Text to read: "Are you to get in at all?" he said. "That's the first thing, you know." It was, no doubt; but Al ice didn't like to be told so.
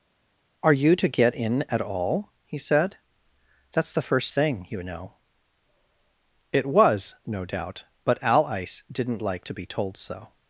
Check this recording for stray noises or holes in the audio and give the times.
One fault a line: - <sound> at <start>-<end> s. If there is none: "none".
none